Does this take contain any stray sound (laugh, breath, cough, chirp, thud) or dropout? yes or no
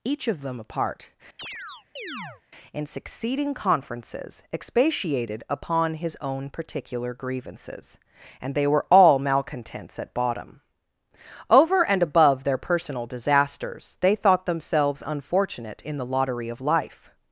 yes